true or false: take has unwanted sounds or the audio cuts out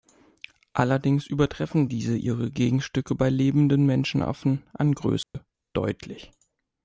true